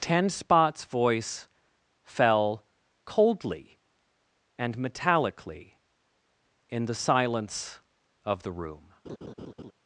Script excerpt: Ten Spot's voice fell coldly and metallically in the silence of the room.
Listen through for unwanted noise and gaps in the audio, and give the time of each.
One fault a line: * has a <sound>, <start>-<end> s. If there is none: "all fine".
* has a laugh, 9.0-9.7 s